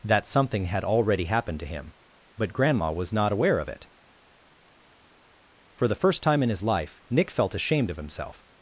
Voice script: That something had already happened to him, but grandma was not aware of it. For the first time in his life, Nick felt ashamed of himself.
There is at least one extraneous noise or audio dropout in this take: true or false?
false